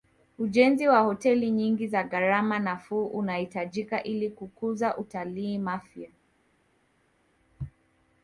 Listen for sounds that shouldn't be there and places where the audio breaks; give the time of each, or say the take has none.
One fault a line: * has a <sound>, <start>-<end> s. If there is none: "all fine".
all fine